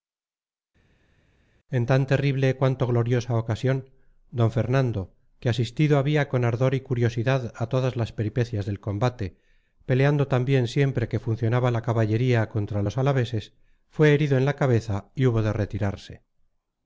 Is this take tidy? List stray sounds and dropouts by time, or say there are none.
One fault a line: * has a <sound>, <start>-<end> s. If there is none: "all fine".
all fine